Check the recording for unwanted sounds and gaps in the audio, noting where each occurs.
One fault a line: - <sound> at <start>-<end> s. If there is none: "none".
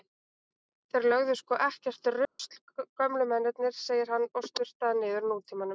- dropout at 2.2-2.4 s